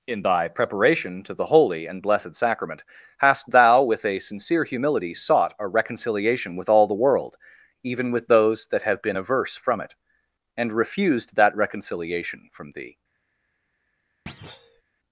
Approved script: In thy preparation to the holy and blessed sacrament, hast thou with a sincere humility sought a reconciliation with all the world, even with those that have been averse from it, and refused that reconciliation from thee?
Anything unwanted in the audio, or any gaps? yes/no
yes